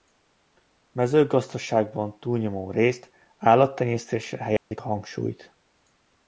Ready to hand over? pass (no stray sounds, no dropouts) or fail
fail